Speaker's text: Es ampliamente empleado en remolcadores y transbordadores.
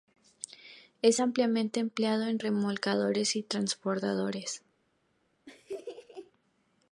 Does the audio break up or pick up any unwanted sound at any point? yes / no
yes